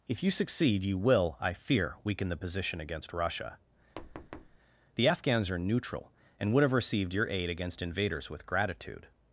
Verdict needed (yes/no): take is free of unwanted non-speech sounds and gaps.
no